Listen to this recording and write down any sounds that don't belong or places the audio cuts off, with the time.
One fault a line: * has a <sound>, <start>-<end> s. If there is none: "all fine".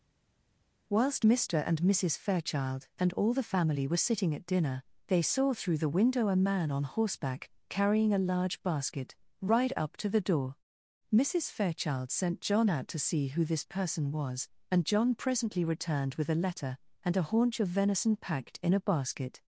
all fine